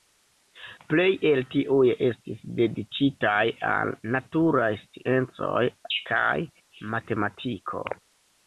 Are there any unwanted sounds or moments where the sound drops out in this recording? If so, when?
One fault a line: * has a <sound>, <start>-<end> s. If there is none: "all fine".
all fine